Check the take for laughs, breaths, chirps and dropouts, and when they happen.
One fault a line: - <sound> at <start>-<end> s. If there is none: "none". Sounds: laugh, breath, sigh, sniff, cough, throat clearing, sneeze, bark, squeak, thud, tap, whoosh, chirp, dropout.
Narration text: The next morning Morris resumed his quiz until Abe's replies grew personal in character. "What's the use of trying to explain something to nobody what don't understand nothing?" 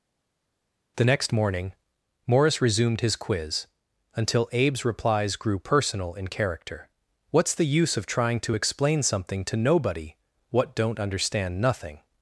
none